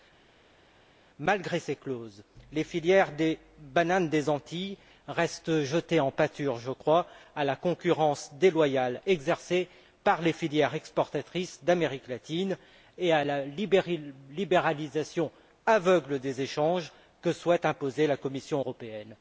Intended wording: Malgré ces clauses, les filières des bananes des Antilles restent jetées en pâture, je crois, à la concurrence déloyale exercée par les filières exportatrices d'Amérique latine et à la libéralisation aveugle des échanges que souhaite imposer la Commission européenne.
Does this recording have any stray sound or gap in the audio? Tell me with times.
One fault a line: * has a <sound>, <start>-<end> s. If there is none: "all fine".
all fine